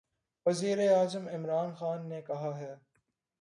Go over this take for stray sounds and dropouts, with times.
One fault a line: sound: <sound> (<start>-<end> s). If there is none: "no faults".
no faults